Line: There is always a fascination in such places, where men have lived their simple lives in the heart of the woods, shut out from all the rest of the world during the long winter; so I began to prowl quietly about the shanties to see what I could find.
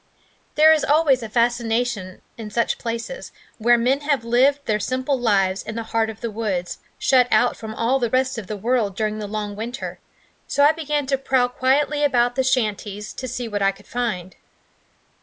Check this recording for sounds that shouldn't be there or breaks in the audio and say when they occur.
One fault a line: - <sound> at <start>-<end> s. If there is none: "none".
none